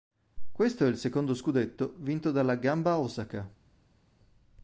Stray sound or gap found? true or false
false